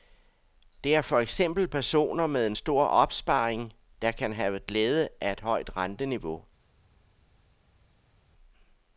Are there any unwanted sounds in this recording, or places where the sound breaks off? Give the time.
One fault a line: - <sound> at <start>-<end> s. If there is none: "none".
none